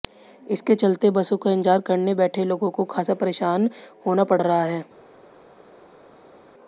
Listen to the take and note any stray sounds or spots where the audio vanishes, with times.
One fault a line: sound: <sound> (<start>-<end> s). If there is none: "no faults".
no faults